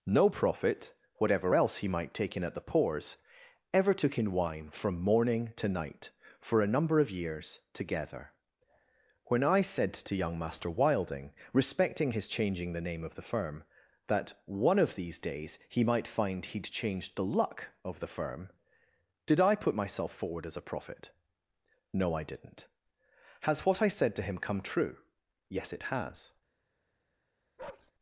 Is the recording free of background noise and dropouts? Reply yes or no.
no